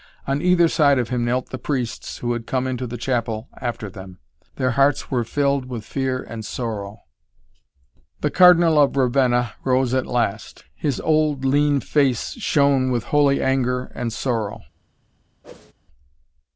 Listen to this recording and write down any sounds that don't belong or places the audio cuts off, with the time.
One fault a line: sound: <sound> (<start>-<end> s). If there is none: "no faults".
sound: whoosh (15.4-15.7 s)